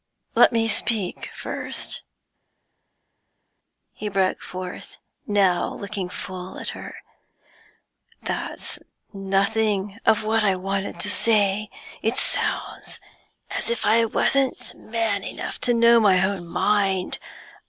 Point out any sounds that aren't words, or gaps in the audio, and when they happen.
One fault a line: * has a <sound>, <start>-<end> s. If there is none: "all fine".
all fine